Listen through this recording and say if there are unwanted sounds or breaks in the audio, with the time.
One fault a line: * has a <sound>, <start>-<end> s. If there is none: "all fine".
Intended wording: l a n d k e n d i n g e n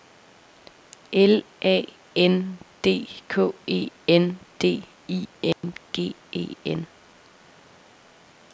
* has a dropout, 5.5-5.6 s